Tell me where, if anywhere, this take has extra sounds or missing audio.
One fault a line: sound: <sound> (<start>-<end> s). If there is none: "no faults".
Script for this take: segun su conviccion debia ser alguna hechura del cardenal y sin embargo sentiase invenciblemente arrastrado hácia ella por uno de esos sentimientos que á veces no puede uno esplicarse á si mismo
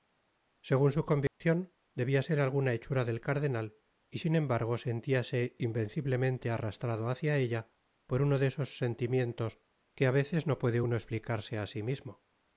sound: dropout (1.3-1.4 s)